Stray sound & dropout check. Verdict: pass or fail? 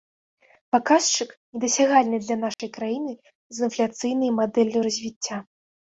fail